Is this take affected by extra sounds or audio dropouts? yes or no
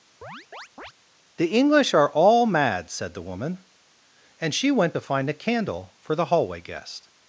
yes